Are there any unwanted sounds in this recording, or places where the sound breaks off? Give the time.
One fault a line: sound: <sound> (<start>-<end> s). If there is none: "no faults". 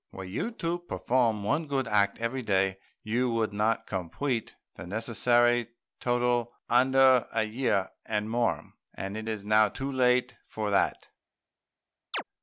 sound: chirp (12.1-12.2 s)